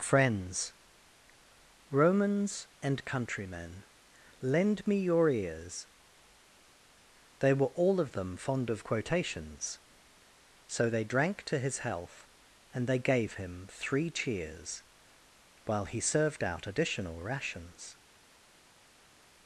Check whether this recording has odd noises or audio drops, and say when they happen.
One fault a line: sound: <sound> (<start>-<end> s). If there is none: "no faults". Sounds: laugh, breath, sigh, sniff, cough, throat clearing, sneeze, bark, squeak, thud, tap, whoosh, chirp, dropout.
no faults